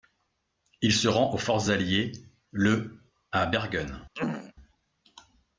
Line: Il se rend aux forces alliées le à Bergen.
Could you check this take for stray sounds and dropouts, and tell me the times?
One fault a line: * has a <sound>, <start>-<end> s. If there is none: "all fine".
* has a throat clearing, 4.2-4.5 s